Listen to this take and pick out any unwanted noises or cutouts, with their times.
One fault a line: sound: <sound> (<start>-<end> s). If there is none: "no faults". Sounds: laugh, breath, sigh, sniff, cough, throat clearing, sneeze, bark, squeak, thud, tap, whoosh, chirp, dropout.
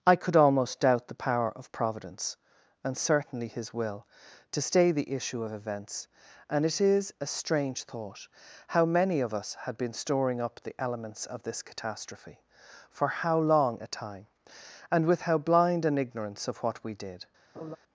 sound: laugh (17.5-17.8 s)